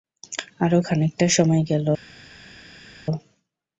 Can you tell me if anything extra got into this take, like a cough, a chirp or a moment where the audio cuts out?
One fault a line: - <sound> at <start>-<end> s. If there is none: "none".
none